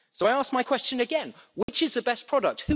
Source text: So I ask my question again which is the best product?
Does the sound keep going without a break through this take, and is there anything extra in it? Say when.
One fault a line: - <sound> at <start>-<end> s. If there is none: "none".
- dropout at 1.6-1.7 s